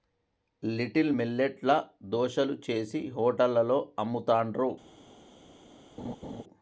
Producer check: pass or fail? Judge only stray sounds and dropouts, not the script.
fail